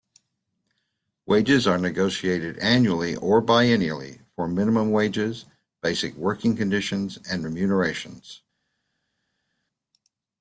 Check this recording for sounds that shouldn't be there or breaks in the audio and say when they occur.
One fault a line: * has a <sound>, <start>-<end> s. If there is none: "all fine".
all fine